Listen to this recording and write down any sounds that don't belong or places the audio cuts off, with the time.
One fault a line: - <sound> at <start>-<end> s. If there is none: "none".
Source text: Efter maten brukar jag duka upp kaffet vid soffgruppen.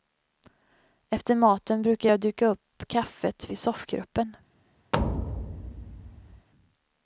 - thud at 4.9-6.5 s